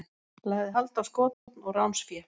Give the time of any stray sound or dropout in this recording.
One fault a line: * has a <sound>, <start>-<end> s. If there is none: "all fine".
* has a dropout, 1.3-1.5 s